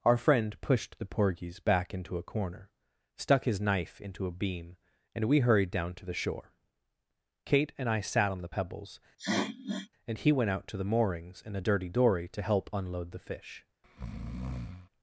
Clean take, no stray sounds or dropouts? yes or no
no